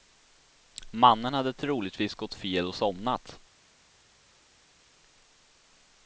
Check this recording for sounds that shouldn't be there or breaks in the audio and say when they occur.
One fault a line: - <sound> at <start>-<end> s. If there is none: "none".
none